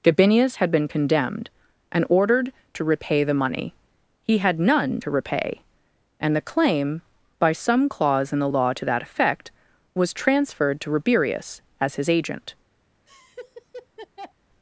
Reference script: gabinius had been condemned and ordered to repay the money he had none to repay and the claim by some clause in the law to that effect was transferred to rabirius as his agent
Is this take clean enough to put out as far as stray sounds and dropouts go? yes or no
no